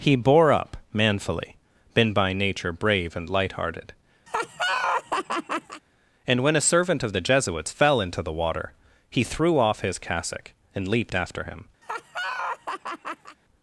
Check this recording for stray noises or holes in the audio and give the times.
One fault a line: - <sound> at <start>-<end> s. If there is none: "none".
- laugh at 4.3-5.8 s
- laugh at 11.8-13.4 s